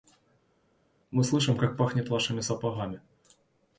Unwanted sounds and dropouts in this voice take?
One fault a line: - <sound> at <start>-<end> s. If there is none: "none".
none